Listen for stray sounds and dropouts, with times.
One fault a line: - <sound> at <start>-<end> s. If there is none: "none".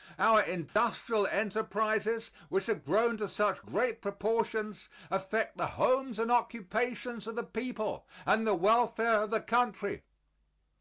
- dropout at 0.7-0.8 s